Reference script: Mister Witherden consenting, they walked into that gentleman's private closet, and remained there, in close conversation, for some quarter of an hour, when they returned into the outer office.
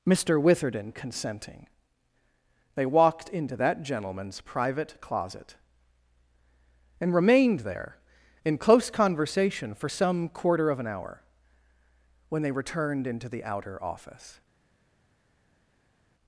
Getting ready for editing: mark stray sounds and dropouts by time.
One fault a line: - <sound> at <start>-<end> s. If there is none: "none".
none